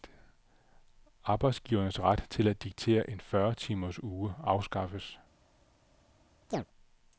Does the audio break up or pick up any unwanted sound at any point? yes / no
yes